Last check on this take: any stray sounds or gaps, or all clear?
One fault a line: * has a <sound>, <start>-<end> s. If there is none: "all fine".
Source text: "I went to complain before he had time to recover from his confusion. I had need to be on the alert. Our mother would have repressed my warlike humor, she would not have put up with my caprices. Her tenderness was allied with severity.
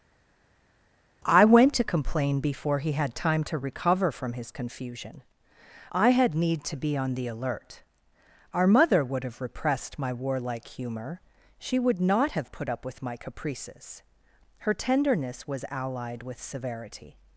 all fine